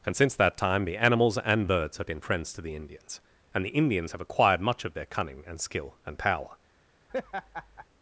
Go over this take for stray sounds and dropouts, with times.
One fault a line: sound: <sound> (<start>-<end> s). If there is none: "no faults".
sound: laugh (7.1-7.9 s)